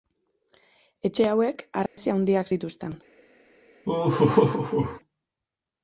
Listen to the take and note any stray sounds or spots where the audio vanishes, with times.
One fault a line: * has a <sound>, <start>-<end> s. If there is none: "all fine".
* has a dropout, 1.9-2.0 s
* has a laugh, 3.8-5.0 s